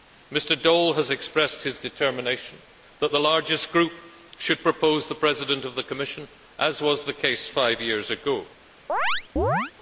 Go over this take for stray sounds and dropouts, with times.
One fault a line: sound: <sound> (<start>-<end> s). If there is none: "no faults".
sound: chirp (8.9-9.7 s)